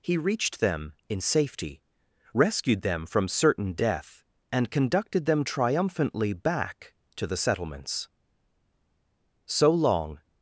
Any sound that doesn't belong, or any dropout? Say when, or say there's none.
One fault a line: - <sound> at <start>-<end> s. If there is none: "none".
none